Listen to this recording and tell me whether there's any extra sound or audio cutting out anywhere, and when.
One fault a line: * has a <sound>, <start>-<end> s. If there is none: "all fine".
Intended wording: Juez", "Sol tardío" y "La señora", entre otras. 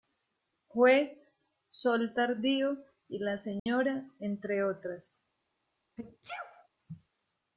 * has a dropout, 3.6-3.7 s
* has a sneeze, 6.0-6.7 s